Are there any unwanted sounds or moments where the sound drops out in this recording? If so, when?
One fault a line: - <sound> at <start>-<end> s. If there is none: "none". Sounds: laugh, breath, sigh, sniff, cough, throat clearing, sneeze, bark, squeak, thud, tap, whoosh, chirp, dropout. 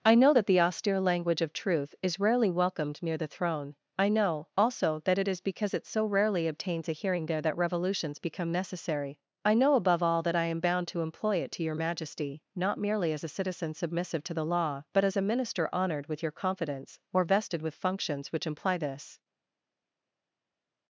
none